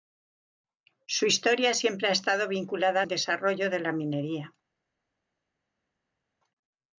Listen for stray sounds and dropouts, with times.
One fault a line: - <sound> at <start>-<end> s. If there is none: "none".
none